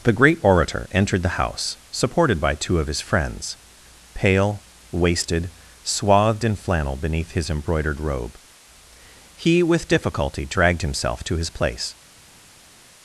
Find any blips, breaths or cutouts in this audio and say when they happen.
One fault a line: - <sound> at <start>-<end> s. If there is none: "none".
none